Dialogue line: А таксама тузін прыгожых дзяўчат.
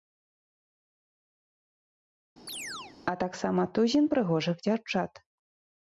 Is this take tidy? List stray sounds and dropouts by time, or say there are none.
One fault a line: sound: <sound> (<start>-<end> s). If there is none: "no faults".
sound: chirp (2.5-3.0 s)